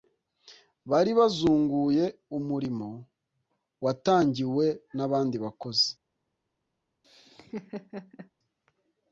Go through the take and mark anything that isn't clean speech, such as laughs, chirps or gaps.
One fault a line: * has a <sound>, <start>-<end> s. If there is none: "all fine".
* has a laugh, 7.0-8.3 s